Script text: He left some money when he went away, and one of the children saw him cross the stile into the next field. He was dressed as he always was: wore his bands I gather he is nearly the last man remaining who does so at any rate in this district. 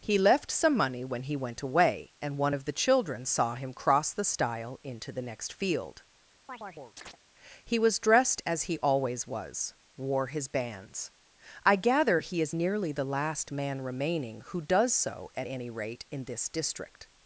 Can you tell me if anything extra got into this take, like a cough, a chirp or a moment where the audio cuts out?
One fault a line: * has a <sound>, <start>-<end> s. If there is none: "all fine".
* has a chirp, 6.5-7.2 s